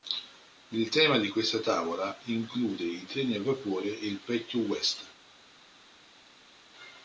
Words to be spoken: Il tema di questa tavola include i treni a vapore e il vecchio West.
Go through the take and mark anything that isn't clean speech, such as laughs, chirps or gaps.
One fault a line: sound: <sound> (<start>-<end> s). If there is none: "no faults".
no faults